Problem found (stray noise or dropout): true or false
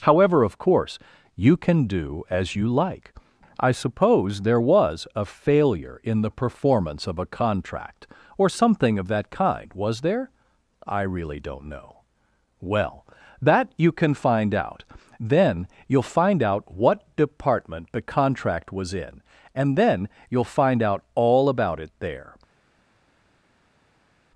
false